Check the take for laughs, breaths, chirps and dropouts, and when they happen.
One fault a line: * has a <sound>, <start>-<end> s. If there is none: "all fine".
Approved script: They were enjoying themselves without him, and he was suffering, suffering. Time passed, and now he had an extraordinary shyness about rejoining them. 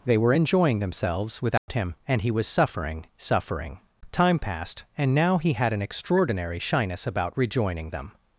* has a dropout, 1.6-1.7 s